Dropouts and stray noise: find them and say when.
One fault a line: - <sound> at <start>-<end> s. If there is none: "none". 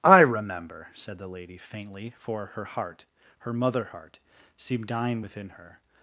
none